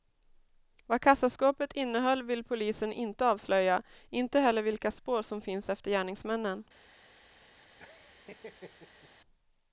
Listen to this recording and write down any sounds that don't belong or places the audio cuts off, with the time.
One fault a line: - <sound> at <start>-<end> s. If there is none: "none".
- laugh at 7.8-9.1 s